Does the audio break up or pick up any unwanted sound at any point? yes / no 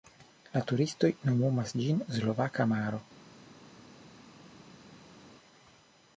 no